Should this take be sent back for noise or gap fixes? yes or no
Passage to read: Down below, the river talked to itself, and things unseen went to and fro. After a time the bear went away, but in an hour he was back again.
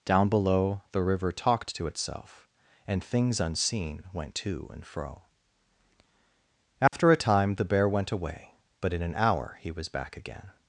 yes